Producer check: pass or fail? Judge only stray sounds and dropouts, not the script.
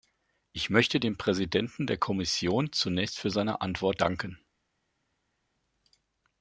pass